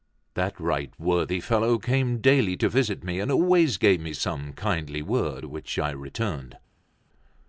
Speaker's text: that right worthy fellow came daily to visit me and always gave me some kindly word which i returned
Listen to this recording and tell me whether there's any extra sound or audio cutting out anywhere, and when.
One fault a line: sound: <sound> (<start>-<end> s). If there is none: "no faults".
no faults